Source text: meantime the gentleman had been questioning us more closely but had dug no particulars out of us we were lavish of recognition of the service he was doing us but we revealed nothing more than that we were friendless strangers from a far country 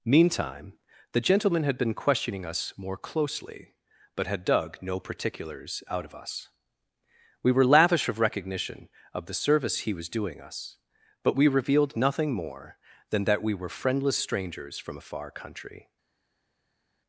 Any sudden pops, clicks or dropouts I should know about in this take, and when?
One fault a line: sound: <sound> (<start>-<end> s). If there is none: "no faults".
no faults